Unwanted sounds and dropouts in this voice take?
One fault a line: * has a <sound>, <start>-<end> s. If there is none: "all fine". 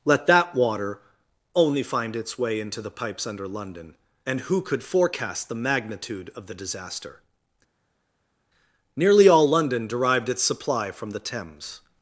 all fine